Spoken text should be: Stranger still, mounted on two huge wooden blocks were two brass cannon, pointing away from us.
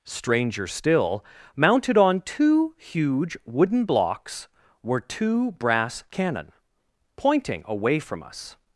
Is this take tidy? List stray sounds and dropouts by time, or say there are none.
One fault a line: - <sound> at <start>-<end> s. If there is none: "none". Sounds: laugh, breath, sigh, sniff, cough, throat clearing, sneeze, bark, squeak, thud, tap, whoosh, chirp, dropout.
none